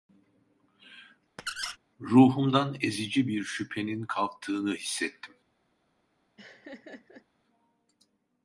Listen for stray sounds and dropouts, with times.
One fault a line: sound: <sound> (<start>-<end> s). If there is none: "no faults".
sound: squeak (1.4-1.8 s)
sound: laugh (6.4-7.3 s)